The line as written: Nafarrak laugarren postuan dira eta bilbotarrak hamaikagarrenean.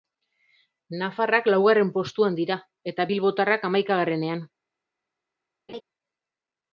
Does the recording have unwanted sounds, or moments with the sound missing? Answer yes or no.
yes